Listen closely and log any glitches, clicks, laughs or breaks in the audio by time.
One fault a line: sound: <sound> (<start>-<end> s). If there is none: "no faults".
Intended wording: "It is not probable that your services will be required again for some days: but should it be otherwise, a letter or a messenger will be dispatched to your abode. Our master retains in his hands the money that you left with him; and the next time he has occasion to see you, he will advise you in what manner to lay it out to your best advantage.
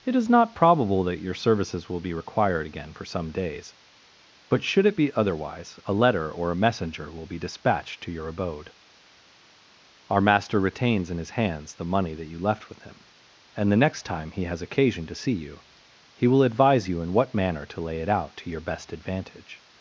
no faults